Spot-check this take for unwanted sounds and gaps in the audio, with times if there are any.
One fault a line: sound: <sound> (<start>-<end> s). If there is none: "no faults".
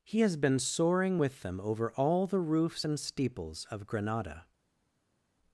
no faults